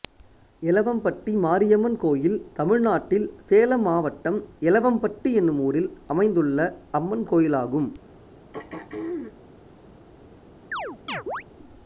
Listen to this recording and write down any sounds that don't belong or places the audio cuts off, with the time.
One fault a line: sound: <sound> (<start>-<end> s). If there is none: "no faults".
sound: throat clearing (8.5-9.4 s)
sound: chirp (10.7-11.4 s)